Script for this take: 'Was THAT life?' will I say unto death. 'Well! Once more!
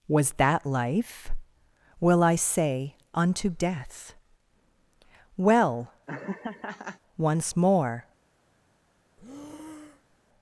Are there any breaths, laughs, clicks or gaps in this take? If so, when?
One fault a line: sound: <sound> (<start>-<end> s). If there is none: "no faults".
sound: laugh (6.1-7.0 s)
sound: breath (9.2-10.2 s)